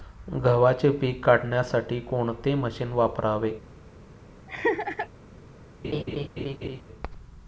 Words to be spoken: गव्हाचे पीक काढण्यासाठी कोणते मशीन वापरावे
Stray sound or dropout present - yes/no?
yes